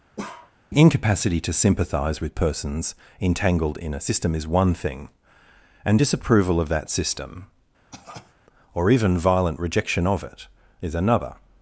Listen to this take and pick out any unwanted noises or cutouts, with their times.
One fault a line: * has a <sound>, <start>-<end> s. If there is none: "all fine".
* has a bark, 0.2-0.5 s
* has a cough, 7.9-8.4 s